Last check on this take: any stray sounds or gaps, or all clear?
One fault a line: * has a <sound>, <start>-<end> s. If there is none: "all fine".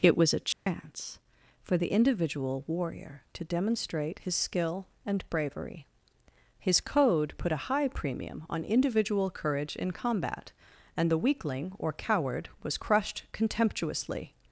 * has a dropout, 0.5-0.7 s